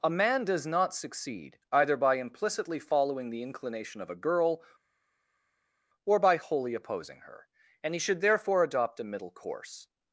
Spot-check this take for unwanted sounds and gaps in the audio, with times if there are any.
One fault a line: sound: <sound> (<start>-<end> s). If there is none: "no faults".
no faults